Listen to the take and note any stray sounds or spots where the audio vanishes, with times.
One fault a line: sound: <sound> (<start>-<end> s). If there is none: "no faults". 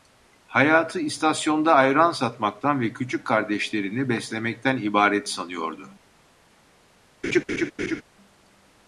sound: laugh (7.2-8.0 s)